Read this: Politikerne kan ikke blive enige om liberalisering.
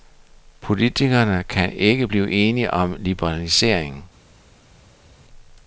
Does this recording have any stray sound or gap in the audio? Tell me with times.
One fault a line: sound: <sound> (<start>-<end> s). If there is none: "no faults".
no faults